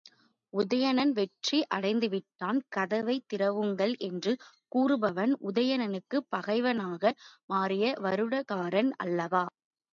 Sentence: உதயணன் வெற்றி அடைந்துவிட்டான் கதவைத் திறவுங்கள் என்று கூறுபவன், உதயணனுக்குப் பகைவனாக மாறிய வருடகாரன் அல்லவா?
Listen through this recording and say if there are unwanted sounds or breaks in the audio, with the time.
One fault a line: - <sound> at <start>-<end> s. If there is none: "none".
none